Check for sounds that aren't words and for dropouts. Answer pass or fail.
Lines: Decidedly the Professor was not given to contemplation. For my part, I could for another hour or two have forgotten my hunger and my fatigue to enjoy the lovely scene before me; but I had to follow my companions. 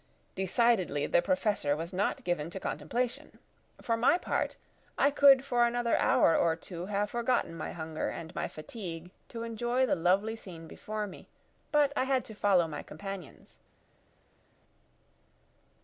pass